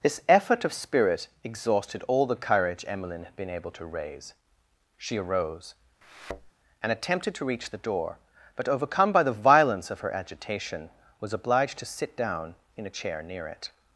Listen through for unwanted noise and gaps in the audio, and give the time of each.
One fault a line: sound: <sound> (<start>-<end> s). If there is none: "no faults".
sound: thud (6.0-6.5 s)